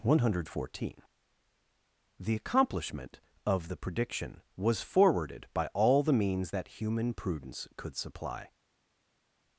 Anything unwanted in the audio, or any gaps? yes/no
no